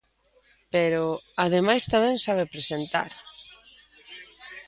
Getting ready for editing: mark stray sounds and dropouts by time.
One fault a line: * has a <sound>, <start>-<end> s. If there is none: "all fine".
all fine